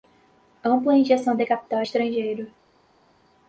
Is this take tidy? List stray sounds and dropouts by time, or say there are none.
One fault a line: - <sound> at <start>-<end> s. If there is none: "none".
none